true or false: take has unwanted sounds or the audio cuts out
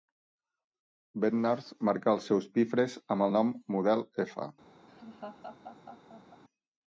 true